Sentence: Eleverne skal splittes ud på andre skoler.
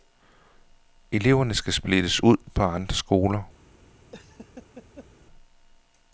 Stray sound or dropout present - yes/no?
yes